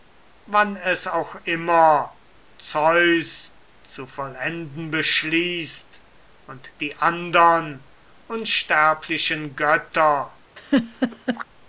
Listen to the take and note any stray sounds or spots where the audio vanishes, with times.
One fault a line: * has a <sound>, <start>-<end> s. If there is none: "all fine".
* has a laugh, 10.6-11.5 s